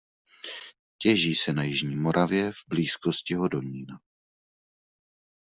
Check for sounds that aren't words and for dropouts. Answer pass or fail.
pass